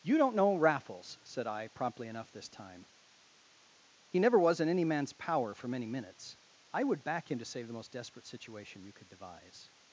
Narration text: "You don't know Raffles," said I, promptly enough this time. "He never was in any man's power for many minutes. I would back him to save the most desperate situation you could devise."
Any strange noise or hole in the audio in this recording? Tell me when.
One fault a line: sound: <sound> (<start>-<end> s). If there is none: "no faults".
no faults